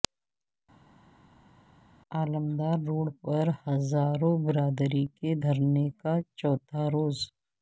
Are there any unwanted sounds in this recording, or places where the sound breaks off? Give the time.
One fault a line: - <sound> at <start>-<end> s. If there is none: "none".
none